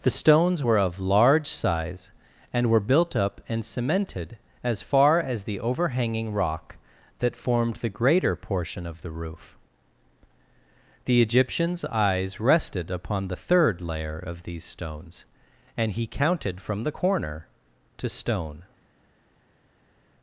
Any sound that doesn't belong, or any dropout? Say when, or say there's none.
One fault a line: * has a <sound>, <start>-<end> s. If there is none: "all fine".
all fine